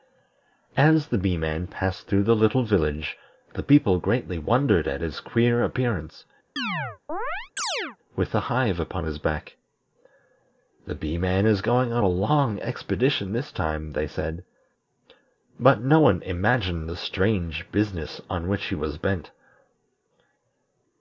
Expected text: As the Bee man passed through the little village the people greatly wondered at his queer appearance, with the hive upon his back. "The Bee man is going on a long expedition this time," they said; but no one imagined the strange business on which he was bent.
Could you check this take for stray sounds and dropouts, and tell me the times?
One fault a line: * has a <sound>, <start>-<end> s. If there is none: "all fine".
* has a chirp, 6.6-8.0 s